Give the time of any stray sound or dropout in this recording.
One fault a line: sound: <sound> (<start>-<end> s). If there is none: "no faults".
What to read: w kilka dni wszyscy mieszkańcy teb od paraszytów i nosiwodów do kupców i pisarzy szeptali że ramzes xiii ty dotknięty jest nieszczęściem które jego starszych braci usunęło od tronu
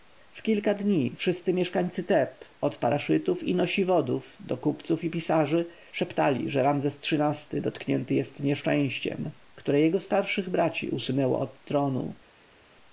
no faults